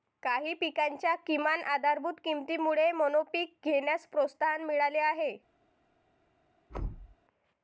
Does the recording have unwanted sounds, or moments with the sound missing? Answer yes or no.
yes